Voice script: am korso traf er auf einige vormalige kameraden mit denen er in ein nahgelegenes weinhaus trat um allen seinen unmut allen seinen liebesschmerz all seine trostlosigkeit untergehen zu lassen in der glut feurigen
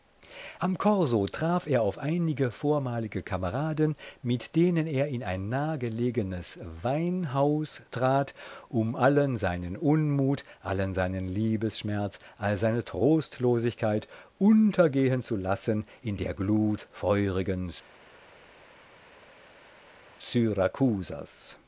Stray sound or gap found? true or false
false